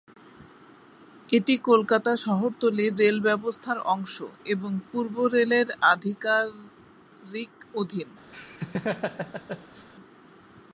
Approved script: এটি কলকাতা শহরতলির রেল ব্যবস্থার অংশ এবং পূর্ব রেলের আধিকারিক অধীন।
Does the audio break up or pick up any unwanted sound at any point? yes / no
yes